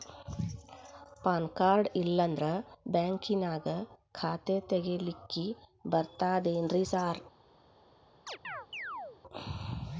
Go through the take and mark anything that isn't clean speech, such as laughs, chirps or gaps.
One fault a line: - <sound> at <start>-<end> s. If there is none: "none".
- chirp at 8.3-9.2 s